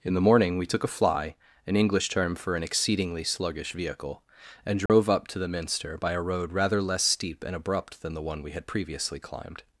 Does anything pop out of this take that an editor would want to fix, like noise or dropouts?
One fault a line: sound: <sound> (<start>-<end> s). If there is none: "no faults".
sound: dropout (4.9-4.9 s)